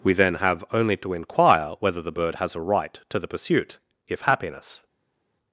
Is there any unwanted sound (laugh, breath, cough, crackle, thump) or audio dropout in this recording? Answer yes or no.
no